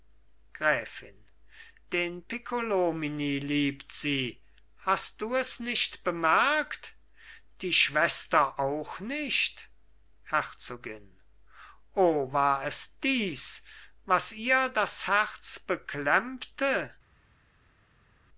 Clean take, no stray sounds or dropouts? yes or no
yes